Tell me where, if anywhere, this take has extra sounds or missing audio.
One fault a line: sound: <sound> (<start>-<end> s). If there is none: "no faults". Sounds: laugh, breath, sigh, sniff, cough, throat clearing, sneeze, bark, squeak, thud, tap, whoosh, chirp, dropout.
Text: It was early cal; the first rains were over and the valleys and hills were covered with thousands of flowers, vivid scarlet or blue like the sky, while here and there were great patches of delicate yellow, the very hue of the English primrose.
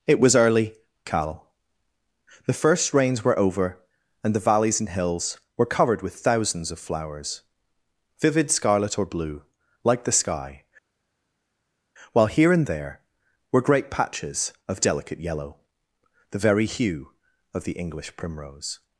no faults